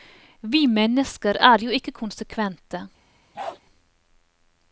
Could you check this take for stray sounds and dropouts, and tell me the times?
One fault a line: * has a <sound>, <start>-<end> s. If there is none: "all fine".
* has a bark, 3.3-3.6 s